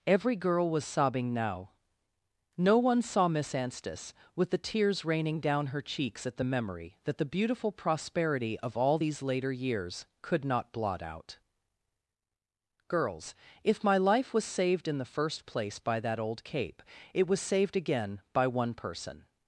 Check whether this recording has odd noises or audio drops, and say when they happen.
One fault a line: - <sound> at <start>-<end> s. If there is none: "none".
none